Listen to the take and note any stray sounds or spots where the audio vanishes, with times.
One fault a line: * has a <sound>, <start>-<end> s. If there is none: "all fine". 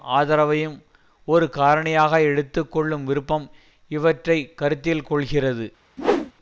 * has a whoosh, 6.0-6.3 s